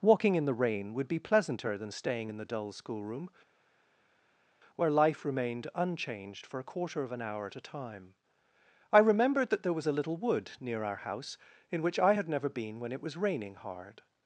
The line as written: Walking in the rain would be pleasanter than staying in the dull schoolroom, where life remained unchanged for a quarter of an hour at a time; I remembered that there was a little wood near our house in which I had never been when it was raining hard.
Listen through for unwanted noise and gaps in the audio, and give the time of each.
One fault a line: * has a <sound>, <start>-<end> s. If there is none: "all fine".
all fine